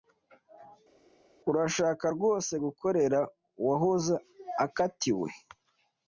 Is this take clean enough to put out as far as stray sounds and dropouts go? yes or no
yes